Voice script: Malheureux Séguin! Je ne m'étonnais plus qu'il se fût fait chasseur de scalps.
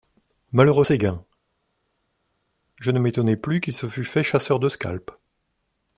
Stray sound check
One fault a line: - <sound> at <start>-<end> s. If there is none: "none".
none